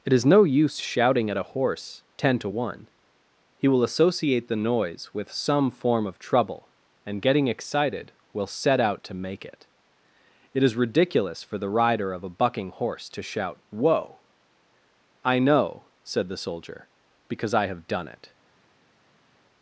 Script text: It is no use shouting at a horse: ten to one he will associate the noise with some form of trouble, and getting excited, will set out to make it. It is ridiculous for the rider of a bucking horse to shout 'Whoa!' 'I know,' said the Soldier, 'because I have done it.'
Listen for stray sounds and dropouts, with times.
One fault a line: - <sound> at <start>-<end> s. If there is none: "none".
none